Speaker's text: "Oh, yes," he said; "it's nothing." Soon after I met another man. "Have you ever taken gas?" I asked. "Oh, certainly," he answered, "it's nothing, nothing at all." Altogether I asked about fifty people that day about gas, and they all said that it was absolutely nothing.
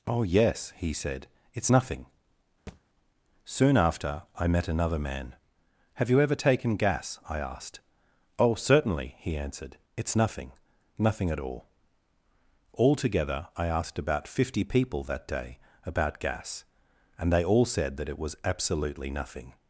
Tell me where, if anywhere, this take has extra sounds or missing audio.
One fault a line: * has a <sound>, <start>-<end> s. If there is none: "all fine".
* has a thud, 2.7-2.8 s